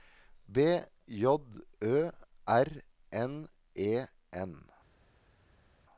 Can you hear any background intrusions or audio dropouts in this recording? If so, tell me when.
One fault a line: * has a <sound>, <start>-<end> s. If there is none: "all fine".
all fine